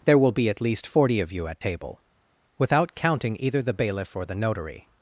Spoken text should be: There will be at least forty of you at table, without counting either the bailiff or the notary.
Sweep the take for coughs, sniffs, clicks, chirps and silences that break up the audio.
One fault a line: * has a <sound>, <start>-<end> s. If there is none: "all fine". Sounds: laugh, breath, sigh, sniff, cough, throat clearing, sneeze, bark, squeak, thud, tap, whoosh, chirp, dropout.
all fine